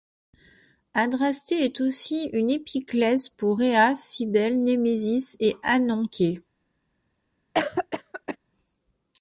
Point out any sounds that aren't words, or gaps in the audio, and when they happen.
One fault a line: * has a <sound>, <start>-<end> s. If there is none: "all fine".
* has a cough, 7.5-8.4 s